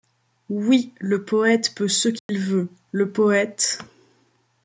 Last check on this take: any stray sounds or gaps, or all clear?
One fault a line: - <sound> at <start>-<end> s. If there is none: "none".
- dropout at 2.2-2.3 s